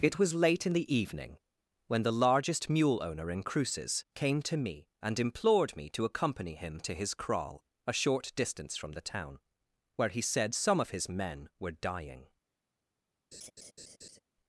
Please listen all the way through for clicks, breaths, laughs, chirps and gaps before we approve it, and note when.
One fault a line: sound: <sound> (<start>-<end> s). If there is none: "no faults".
sound: laugh (13.3-14.2 s)